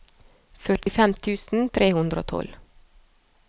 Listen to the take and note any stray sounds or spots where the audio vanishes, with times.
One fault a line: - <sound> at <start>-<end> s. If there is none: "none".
- dropout at 0.8-0.9 s